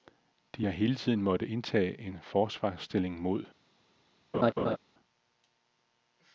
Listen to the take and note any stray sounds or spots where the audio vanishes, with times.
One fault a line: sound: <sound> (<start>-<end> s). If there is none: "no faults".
sound: laugh (4.3-4.8 s)